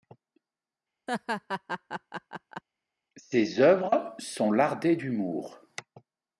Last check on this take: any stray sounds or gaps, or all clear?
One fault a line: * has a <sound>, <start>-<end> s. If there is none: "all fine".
* has a laugh, 1.1-2.6 s